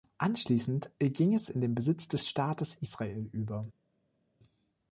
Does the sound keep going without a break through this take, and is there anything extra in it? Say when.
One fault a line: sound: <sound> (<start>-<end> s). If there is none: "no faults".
no faults